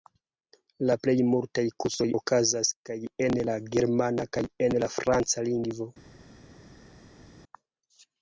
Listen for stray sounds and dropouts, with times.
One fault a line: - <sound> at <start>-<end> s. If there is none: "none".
none